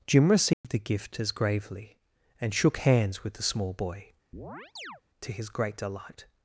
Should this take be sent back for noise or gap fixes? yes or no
yes